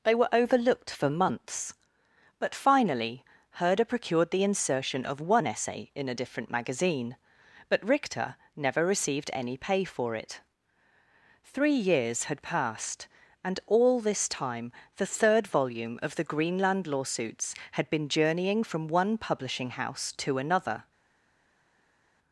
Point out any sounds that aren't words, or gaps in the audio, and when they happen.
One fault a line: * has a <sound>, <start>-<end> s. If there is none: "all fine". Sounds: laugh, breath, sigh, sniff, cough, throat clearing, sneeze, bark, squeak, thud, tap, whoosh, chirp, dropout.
all fine